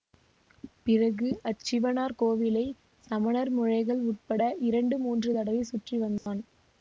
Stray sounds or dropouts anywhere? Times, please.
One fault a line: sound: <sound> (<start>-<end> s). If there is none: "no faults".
sound: dropout (6.2-6.3 s)